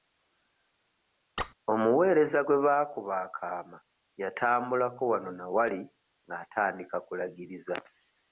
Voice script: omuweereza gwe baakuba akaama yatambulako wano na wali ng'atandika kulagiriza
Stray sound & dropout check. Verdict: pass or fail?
fail